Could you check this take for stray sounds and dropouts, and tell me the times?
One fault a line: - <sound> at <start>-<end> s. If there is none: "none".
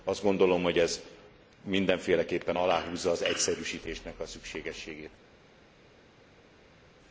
none